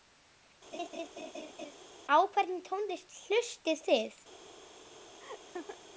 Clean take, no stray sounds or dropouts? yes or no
no